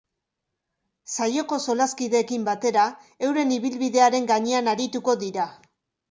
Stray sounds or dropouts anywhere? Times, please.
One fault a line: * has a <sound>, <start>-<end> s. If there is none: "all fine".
all fine